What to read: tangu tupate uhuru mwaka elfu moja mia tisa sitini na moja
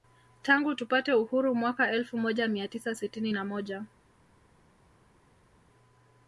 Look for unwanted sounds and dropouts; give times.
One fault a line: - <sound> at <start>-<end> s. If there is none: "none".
none